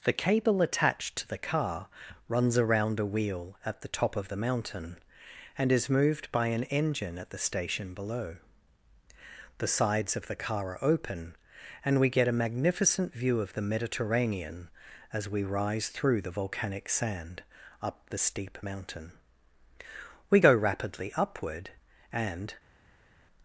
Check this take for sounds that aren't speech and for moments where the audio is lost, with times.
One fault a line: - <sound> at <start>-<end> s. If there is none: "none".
none